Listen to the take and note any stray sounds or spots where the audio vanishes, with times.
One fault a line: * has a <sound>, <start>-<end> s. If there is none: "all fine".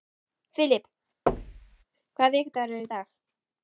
* has a thud, 1.3-1.8 s